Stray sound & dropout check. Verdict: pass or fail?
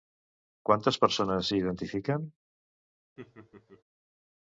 fail